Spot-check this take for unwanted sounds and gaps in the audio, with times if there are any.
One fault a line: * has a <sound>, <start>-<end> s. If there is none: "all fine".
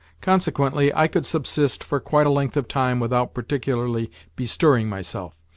all fine